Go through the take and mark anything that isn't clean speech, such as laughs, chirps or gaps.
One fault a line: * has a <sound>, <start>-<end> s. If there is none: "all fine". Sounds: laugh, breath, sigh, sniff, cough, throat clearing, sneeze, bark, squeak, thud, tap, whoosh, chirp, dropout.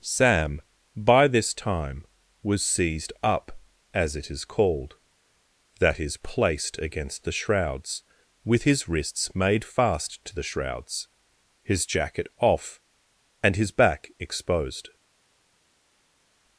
all fine